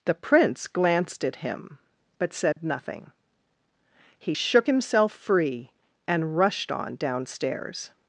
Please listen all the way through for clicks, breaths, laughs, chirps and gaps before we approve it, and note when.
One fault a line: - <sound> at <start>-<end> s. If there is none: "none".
- dropout at 2.5-2.6 s